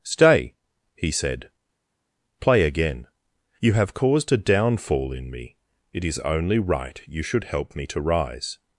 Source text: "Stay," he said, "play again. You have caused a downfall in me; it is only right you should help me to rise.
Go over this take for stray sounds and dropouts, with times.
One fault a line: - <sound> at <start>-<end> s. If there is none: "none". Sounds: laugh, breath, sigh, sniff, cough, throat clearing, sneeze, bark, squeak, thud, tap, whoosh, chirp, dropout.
none